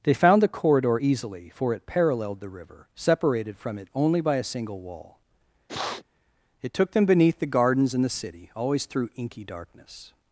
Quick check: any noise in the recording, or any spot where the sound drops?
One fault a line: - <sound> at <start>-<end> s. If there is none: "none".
- sniff at 5.7-6.0 s